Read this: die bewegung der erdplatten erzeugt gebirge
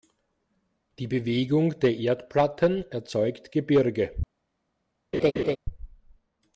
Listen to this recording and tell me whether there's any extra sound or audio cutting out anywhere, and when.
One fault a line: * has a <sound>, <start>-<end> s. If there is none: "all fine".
* has a laugh, 5.1-5.6 s